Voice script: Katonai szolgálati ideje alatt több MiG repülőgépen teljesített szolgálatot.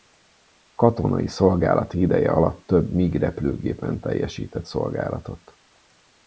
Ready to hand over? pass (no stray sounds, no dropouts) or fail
pass